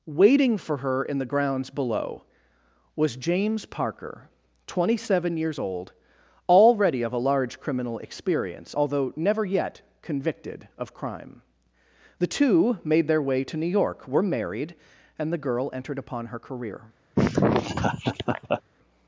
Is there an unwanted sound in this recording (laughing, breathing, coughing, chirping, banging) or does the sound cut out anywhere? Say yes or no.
yes